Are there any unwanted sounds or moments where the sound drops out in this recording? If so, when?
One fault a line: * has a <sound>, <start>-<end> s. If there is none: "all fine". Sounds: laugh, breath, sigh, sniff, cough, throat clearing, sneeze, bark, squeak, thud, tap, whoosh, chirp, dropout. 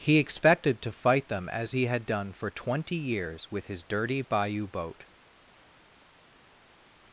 all fine